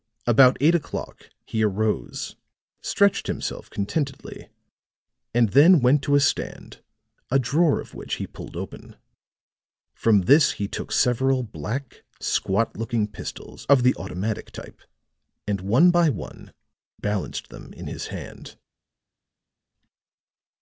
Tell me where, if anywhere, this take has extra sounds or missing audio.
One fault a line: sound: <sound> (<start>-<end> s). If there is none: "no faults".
no faults